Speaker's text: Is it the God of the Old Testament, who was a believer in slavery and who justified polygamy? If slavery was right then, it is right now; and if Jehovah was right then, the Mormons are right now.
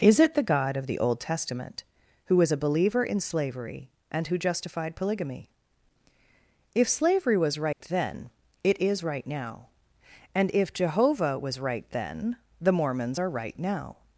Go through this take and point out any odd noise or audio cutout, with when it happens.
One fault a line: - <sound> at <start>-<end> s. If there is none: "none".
- dropout at 7.7-7.8 s